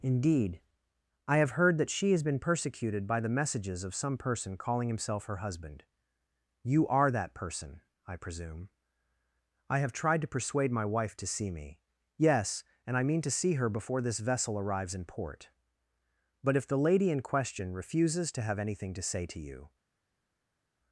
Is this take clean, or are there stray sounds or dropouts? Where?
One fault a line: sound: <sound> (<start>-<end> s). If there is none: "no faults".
no faults